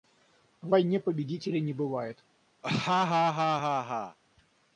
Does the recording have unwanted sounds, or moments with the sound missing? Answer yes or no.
yes